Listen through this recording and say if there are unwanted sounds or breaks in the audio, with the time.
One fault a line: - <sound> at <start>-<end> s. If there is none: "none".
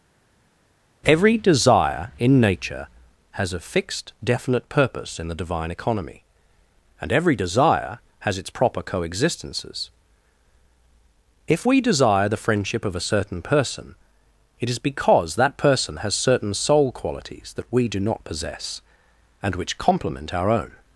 none